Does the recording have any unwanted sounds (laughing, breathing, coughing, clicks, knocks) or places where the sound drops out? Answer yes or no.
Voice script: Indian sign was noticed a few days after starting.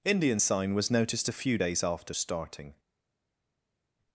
no